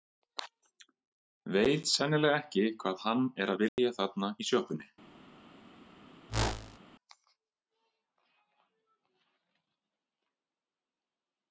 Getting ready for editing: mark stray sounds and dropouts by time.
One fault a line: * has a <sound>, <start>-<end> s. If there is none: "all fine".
* has a dropout, 3.7-3.8 s
* has a whoosh, 6.3-6.8 s